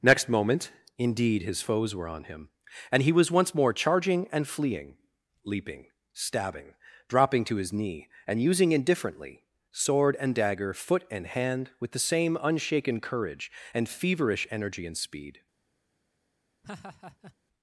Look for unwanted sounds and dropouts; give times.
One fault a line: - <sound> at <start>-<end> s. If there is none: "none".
- laugh at 16.6-17.4 s